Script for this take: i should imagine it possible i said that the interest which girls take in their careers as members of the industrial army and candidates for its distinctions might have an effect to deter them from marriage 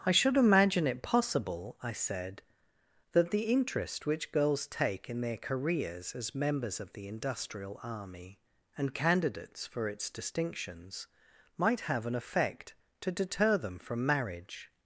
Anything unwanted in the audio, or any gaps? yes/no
no